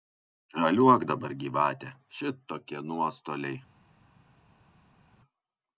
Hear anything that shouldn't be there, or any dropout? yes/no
no